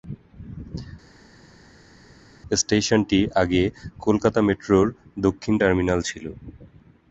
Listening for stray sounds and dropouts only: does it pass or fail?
pass